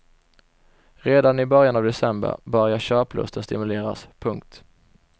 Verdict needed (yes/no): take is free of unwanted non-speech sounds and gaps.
yes